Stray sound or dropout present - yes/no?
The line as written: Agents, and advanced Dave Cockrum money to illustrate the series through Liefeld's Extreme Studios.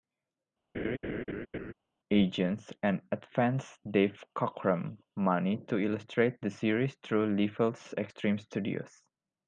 yes